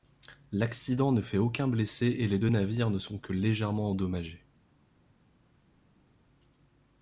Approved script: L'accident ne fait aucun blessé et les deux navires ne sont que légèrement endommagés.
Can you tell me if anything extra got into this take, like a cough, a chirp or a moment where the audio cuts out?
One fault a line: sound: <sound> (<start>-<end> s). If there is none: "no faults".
no faults